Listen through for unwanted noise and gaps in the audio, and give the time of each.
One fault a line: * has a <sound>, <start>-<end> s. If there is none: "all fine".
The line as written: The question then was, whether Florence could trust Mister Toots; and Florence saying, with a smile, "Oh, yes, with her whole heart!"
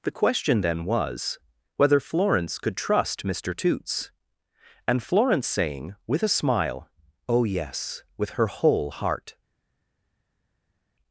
all fine